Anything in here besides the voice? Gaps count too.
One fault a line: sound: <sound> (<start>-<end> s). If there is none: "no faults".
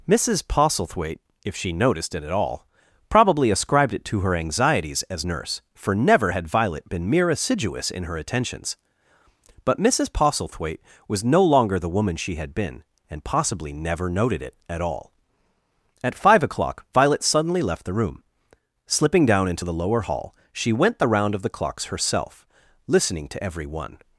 no faults